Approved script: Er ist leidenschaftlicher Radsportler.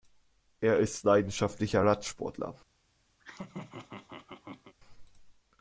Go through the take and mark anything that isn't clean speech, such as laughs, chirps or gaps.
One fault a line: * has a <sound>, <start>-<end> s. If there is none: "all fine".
* has a laugh, 3.2-4.7 s